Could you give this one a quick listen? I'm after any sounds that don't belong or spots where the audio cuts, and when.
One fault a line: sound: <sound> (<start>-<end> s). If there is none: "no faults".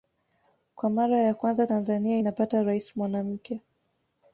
no faults